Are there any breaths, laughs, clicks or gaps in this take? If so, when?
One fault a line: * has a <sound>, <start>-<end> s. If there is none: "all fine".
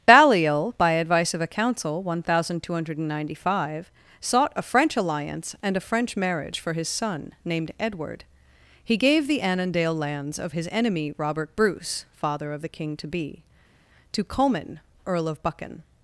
all fine